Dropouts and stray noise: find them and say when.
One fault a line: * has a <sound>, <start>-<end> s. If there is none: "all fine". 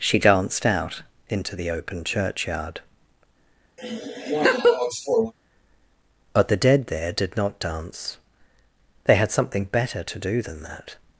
* has a laugh, 3.8-5.3 s